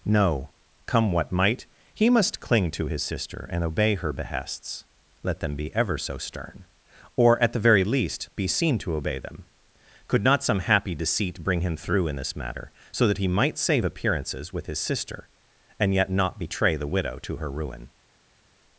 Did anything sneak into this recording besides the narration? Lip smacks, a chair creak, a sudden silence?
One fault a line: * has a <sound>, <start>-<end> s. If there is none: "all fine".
all fine